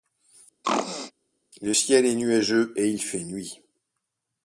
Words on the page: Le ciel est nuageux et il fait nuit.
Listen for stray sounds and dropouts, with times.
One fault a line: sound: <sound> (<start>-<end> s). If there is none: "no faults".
sound: throat clearing (0.6-1.1 s)